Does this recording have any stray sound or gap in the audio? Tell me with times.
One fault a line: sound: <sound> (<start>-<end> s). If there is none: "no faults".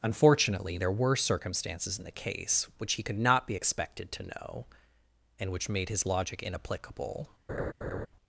sound: laugh (7.5-8.1 s)